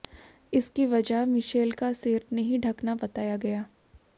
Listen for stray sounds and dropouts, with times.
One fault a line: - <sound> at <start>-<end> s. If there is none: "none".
none